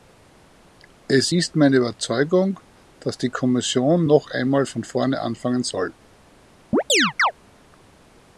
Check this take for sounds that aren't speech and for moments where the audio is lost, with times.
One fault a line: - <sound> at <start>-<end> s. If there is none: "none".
- chirp at 6.7-7.3 s